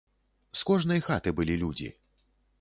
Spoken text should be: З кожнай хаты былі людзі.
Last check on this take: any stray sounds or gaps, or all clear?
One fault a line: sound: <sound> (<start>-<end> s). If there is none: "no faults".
no faults